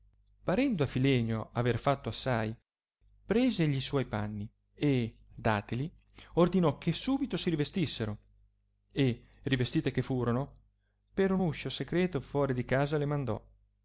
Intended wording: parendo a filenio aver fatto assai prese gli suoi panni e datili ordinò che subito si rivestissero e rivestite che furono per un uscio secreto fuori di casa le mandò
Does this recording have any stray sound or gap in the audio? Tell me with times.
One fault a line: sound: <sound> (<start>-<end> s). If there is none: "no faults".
no faults